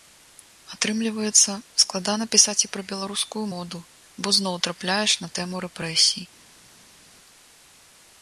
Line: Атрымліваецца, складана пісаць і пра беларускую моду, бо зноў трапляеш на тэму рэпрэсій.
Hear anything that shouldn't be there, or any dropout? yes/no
no